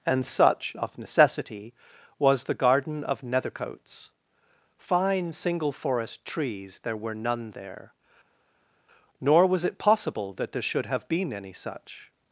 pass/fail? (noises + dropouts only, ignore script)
pass